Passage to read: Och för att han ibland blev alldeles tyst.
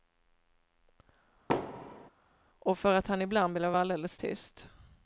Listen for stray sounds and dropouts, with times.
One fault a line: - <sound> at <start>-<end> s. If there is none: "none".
- thud at 1.5-2.1 s